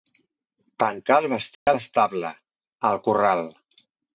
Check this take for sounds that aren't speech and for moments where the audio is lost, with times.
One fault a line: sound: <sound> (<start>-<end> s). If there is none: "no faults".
sound: dropout (1.5-1.7 s)